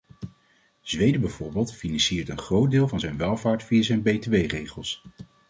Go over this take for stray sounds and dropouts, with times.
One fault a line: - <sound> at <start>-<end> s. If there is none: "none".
none